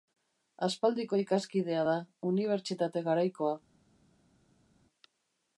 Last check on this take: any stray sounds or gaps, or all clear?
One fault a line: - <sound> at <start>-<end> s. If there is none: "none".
none